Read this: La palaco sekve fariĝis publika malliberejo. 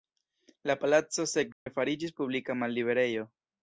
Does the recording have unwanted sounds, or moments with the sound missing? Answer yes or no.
yes